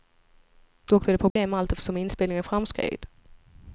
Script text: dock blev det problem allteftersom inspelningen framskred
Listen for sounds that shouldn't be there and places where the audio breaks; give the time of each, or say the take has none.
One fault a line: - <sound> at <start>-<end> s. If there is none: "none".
- dropout at 1.3-1.4 s